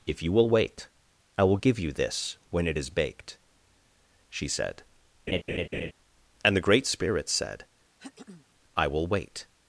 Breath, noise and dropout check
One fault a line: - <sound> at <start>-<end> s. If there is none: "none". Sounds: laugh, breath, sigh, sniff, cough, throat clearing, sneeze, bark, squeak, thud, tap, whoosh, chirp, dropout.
- laugh at 5.3-5.9 s
- throat clearing at 8.0-8.5 s